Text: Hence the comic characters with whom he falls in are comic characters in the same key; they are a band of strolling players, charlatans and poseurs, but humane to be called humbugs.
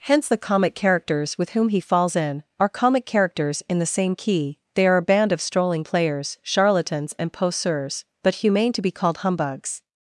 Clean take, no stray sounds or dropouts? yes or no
yes